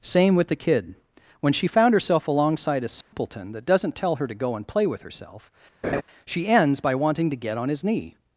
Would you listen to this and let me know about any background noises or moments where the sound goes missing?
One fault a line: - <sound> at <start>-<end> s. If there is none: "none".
- dropout at 3.0-3.1 s
- laugh at 5.8-6.0 s